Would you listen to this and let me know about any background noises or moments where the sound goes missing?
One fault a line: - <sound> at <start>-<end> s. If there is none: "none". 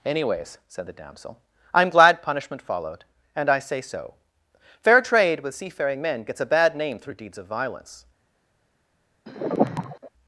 - sigh at 9.3-10.1 s